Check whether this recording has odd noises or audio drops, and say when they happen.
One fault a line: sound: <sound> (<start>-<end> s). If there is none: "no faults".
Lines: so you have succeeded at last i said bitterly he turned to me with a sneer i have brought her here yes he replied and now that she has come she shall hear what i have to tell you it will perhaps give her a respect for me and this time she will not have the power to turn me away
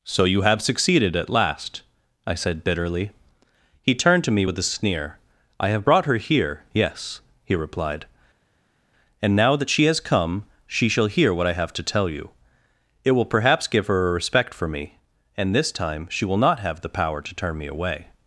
no faults